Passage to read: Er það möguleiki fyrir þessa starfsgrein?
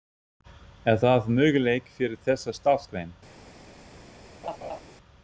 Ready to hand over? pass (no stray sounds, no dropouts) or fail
fail